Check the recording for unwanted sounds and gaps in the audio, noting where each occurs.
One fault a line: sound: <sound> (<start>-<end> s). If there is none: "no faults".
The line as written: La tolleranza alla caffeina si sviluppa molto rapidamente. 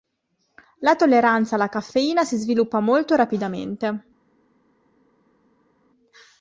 no faults